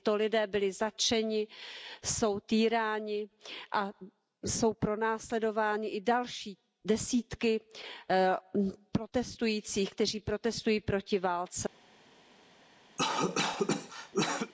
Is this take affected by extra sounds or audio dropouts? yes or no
yes